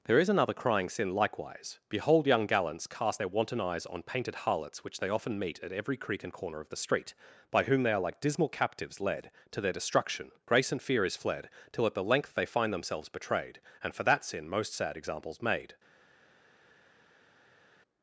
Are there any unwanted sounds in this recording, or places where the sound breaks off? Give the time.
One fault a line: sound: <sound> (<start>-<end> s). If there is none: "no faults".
no faults